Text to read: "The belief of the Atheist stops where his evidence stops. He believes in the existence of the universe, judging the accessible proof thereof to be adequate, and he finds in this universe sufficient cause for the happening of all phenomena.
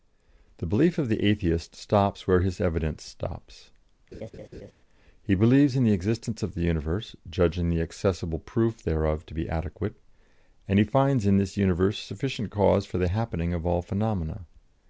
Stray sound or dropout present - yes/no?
yes